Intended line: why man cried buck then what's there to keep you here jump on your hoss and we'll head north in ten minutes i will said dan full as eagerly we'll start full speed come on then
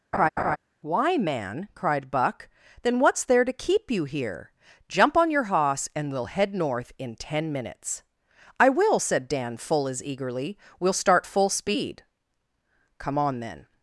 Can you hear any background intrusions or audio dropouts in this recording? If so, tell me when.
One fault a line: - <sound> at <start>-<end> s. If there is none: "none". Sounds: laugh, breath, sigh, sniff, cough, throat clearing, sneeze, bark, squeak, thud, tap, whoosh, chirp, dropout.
- laugh at 0.1-0.6 s